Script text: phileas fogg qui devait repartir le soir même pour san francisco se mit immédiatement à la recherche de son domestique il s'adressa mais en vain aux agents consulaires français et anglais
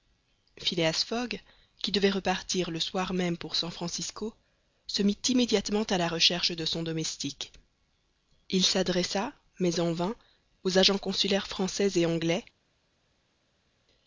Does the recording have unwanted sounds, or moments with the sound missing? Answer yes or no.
no